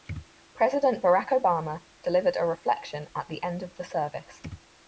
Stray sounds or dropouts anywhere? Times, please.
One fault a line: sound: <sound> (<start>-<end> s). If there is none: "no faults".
no faults